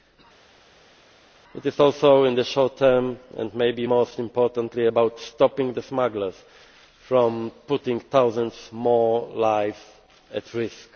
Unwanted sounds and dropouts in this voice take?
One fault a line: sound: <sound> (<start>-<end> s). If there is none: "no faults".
no faults